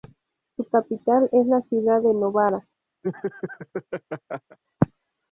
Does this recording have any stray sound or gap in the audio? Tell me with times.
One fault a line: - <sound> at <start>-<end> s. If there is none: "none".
- laugh at 3.0-4.6 s